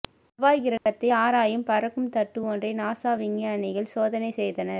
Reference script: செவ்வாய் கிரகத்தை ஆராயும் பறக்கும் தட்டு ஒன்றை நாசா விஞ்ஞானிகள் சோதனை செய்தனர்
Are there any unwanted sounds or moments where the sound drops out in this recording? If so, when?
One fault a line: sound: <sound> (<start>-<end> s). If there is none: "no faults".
sound: dropout (0.8-0.9 s)